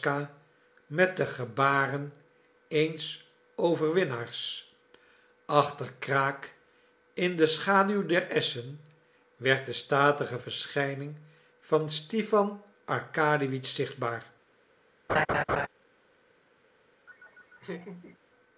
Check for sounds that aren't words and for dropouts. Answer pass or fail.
fail